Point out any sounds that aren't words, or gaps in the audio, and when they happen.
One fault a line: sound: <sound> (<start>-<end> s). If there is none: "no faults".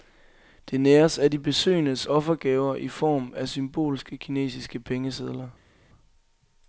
no faults